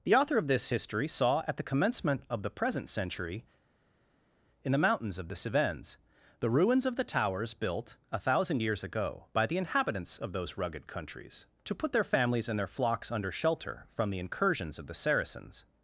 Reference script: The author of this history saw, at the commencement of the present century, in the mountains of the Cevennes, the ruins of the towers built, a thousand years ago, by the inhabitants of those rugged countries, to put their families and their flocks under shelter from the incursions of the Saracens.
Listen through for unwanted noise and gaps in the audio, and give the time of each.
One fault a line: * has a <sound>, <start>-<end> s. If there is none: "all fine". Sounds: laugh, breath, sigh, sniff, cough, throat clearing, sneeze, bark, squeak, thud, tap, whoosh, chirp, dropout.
all fine